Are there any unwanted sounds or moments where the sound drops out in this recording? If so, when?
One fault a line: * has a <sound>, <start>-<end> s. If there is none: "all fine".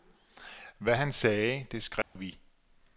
* has a dropout, 2.0-2.2 s